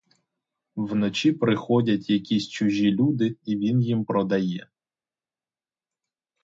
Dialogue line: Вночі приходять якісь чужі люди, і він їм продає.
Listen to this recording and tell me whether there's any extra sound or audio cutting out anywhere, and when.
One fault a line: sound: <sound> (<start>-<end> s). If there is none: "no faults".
no faults